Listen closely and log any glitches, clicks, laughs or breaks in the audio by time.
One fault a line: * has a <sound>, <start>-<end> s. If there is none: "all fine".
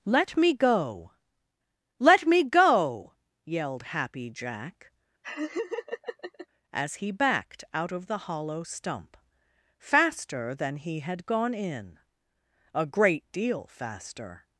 * has a laugh, 5.2-6.5 s